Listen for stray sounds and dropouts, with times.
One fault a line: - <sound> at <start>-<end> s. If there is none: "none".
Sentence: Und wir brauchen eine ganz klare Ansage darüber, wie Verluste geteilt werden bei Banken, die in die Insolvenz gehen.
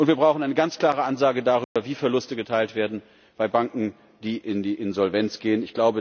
- dropout at 1.6-1.8 s